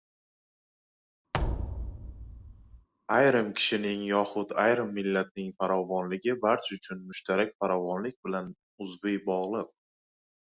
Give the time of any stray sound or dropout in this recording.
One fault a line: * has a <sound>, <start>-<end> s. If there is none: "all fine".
* has a thud, 1.3-2.9 s